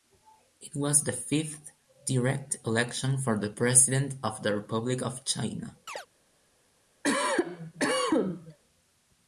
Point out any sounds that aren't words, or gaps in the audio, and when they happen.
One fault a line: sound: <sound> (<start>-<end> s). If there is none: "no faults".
sound: chirp (5.9-6.1 s)
sound: cough (7.0-8.6 s)